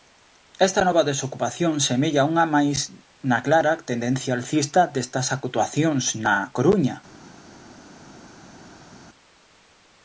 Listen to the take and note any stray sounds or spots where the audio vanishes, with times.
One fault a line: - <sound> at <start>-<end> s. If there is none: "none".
none